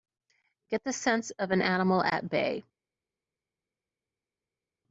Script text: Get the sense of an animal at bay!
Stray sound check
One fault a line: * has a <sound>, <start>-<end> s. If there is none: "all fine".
all fine